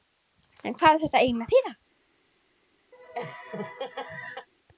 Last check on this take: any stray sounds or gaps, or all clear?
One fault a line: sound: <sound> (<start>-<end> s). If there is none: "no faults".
sound: laugh (2.9-4.5 s)